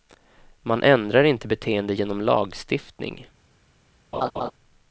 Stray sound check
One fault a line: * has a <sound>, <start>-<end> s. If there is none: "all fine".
* has a laugh, 4.1-4.5 s